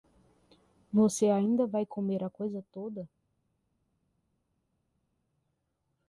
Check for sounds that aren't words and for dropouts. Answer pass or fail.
pass